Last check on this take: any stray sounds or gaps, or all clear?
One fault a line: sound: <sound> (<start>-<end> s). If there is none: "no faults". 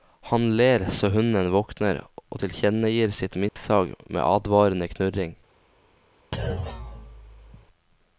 sound: dropout (3.5-3.6 s)
sound: thud (6.3-7.7 s)